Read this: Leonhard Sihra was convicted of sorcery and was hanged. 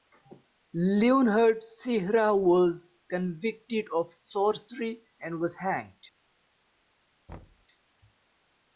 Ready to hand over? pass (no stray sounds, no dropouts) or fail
fail